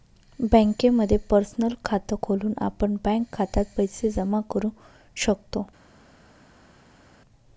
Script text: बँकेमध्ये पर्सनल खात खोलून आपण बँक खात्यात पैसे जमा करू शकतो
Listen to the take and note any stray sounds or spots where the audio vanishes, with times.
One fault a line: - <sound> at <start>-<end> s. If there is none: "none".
none